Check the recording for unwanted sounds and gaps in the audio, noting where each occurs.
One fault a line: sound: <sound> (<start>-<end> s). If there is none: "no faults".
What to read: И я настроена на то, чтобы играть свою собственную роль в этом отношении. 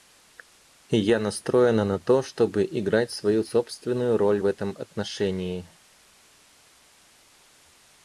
no faults